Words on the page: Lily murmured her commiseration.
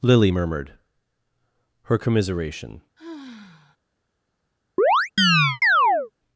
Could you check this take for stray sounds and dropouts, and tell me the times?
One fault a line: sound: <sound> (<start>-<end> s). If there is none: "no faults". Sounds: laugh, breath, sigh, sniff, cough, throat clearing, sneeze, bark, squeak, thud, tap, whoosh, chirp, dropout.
sound: sigh (3.0-3.8 s)
sound: chirp (4.8-6.1 s)